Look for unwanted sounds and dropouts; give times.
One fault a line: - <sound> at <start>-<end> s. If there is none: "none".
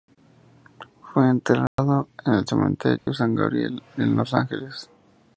- dropout at 1.7-1.8 s
- dropout at 3.0-3.1 s